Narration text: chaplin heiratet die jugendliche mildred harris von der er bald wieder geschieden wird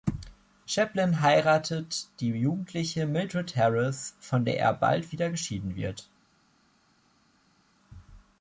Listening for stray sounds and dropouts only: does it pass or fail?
pass